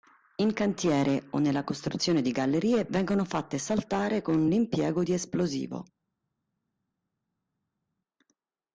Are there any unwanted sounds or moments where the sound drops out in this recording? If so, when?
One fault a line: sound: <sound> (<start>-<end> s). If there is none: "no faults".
no faults